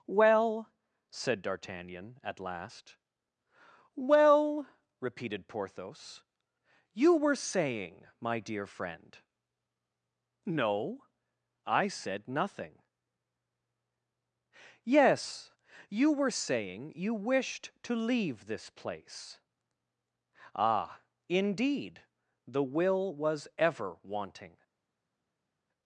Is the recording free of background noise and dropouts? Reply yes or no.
yes